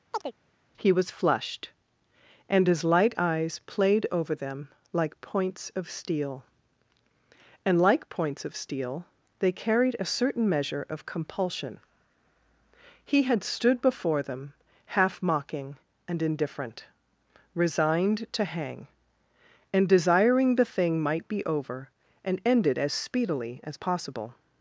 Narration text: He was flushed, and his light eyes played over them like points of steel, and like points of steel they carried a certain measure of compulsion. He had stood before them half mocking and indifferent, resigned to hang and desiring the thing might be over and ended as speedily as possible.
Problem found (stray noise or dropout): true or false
true